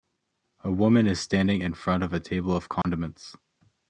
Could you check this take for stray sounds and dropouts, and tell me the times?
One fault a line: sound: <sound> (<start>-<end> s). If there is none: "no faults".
sound: dropout (2.8-2.8 s)